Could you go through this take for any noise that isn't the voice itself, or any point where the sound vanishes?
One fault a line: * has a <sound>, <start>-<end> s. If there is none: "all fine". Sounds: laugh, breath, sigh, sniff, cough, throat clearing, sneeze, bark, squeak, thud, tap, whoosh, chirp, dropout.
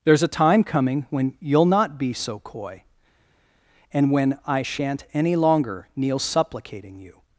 all fine